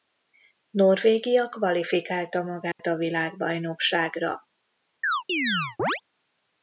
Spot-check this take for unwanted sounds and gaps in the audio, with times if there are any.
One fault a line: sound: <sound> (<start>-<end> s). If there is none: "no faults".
sound: dropout (2.7-2.8 s)
sound: chirp (5.0-6.0 s)